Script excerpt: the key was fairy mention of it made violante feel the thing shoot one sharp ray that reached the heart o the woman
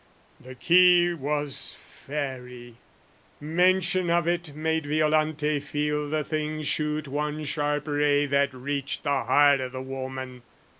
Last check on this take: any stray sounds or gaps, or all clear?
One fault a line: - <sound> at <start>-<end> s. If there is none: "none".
none